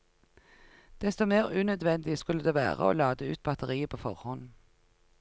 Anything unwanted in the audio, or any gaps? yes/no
no